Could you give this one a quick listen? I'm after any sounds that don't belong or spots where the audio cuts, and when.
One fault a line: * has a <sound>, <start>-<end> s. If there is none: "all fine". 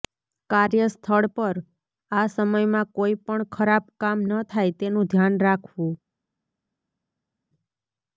all fine